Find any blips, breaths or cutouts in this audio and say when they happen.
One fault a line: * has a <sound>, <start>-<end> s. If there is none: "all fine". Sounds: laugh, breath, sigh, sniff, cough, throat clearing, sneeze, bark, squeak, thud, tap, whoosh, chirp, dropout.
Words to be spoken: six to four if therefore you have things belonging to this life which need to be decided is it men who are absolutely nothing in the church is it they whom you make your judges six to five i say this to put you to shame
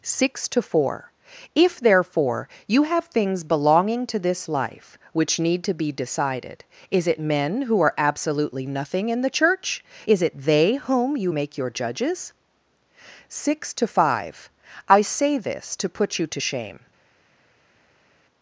all fine